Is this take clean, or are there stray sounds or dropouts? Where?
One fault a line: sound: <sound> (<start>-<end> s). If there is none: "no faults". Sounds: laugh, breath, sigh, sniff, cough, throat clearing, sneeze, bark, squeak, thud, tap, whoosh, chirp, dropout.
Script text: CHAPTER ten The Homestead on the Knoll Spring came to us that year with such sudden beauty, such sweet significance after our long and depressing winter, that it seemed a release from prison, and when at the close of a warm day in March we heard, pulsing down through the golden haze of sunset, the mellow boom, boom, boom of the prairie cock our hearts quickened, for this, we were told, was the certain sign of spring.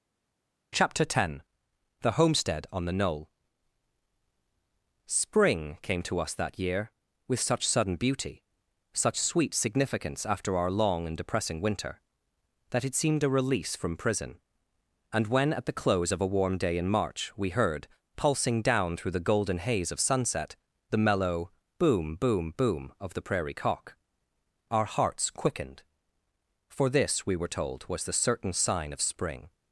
no faults